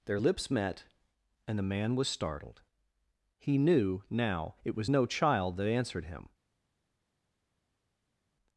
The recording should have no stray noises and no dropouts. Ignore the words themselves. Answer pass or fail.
pass